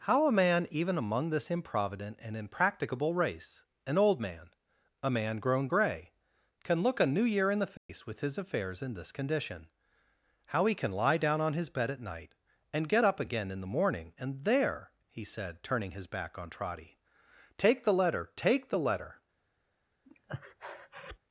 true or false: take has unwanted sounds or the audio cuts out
true